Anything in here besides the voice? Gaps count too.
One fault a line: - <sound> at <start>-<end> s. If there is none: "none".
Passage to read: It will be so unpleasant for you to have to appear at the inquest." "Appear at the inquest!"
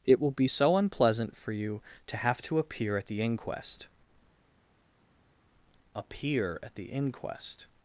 none